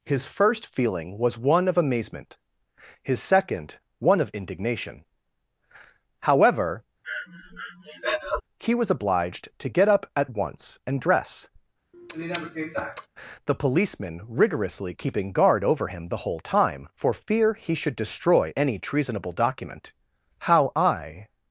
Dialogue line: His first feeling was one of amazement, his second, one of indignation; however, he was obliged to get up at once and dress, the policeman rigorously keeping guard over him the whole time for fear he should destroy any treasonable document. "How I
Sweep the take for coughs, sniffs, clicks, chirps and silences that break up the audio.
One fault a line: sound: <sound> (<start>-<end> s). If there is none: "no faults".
sound: breath (7.0-8.4 s)
sound: sniff (11.9-13.1 s)